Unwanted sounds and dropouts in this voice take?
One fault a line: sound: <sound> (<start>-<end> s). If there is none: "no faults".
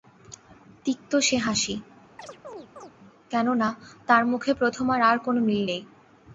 sound: chirp (2.2-2.9 s)